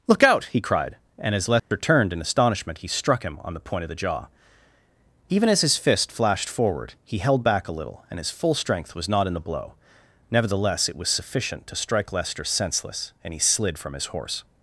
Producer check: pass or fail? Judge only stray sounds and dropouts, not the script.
fail